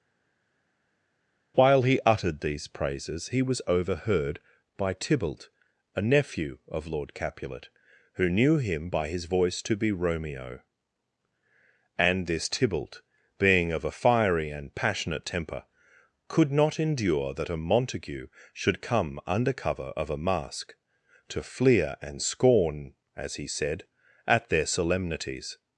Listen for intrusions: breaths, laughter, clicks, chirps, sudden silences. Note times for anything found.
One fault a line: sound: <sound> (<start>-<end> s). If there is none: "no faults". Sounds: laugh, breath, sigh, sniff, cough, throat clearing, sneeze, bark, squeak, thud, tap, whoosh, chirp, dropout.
no faults